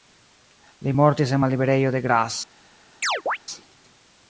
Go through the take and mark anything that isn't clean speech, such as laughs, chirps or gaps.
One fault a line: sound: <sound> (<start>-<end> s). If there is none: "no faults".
sound: chirp (3.0-3.4 s)